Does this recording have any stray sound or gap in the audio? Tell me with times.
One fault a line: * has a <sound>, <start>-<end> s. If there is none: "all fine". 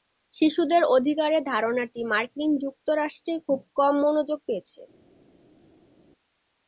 all fine